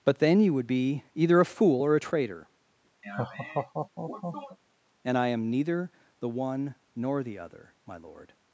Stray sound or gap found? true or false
true